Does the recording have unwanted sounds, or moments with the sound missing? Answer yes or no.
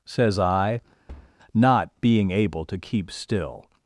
yes